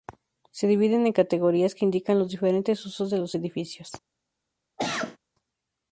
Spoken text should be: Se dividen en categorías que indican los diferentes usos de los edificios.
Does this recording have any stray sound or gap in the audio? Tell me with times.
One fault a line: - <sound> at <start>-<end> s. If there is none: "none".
- cough at 4.8-5.2 s